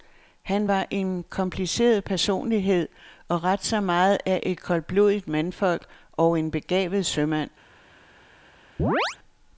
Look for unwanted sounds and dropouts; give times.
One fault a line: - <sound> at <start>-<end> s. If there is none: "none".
- chirp at 8.8-9.2 s